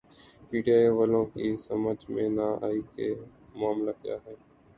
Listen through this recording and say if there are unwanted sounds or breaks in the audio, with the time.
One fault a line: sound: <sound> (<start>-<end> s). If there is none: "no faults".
no faults